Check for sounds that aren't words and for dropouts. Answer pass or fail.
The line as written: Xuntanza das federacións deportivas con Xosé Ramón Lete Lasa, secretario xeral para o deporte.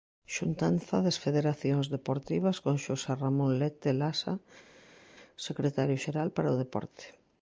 pass